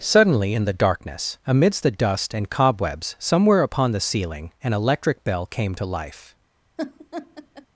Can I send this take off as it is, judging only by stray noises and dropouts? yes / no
no